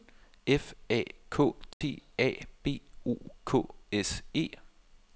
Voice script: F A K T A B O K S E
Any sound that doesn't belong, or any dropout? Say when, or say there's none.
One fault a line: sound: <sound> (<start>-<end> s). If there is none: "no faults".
sound: dropout (1.7-1.8 s)